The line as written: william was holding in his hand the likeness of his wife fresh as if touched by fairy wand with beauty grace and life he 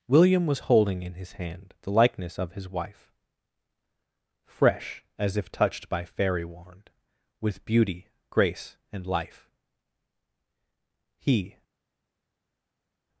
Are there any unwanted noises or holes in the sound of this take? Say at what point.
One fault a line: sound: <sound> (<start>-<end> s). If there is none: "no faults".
no faults